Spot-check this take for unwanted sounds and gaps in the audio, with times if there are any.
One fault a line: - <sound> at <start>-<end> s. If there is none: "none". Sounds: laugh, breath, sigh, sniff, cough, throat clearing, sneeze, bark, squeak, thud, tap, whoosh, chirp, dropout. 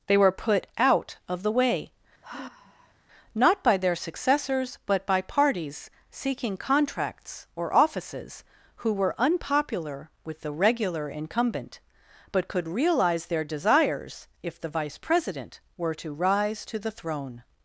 - sigh at 2.2-2.9 s